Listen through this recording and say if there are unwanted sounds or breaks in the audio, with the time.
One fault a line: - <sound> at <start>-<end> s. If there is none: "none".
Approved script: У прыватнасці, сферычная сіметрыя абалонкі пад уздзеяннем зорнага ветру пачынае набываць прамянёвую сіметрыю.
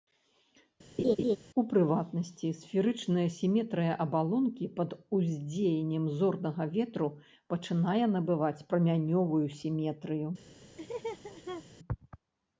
- laugh at 1.0-1.4 s
- laugh at 10.8-11.6 s